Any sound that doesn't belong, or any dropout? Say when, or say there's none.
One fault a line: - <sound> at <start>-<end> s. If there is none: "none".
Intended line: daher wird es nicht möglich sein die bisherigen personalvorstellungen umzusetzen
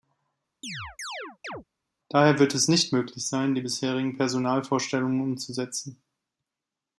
- chirp at 0.6-1.6 s